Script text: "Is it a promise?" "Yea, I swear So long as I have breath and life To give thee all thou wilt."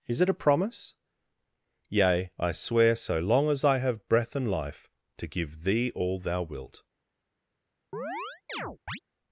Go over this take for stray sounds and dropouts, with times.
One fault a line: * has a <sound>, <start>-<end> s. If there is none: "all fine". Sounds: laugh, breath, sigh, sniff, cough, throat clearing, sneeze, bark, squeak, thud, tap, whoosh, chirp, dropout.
* has a chirp, 7.9-9.0 s